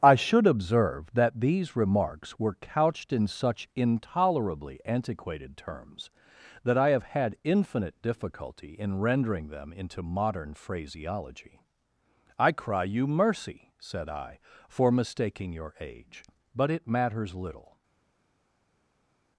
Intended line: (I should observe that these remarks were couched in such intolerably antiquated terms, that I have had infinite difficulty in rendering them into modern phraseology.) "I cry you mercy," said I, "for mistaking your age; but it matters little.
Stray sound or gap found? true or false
false